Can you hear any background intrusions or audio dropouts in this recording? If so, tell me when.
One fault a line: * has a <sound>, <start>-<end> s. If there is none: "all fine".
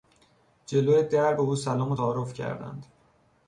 all fine